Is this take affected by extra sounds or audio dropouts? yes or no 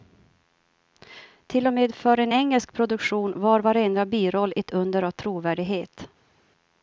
no